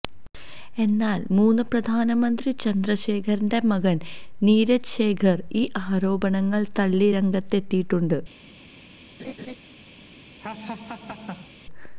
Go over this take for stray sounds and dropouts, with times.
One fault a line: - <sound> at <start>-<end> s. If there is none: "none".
- laugh at 9.2-9.6 s
- laugh at 10.4-11.5 s